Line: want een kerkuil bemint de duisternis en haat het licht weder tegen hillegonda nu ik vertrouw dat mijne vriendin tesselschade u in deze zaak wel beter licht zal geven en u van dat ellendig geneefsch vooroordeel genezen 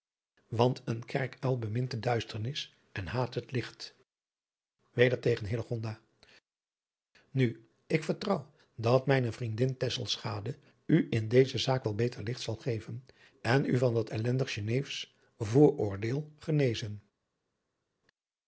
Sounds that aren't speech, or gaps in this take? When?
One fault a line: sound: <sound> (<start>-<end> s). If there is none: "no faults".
no faults